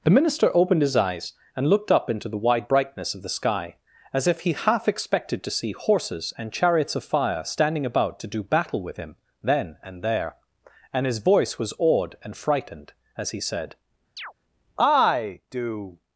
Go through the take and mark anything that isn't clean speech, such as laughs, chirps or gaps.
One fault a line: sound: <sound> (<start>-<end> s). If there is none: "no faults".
sound: chirp (14.2-14.3 s)